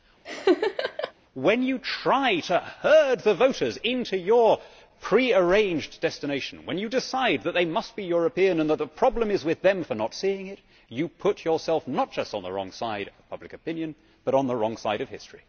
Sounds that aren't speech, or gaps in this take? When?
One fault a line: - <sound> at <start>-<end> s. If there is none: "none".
- laugh at 0.2-1.1 s